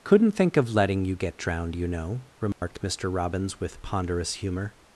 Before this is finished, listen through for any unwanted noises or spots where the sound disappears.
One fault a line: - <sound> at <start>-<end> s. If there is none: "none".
- dropout at 2.5-2.6 s